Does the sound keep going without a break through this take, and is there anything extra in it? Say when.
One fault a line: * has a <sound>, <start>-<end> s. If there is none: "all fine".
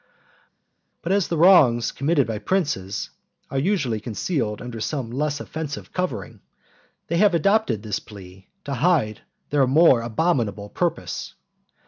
all fine